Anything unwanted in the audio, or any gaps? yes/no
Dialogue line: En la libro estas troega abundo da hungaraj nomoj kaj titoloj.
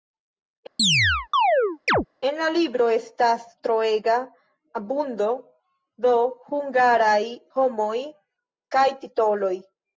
yes